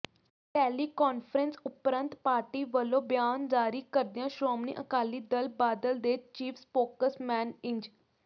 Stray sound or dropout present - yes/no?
no